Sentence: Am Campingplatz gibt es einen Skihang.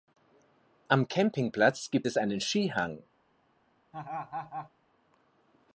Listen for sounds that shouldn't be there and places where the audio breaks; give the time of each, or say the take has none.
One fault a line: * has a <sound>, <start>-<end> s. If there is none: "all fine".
* has a laugh, 3.9-4.7 s